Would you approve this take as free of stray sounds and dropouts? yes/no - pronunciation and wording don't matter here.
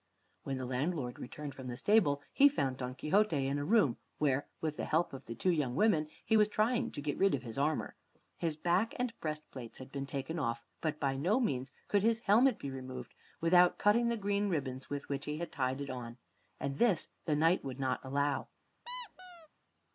no